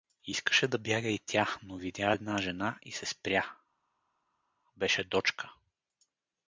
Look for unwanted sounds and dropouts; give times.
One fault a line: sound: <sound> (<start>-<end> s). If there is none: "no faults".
no faults